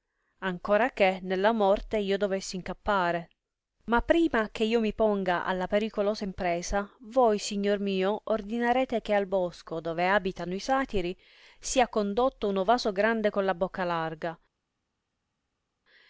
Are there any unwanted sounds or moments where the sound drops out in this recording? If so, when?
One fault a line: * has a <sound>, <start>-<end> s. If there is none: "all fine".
all fine